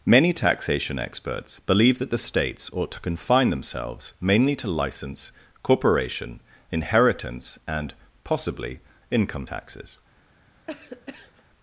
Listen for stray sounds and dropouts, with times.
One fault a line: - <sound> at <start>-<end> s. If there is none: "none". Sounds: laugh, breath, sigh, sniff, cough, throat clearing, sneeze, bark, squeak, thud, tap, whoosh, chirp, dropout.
- cough at 10.7-11.4 s